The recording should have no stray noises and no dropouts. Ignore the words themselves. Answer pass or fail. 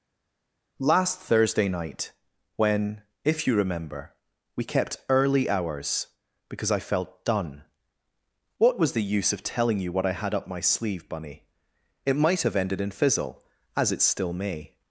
pass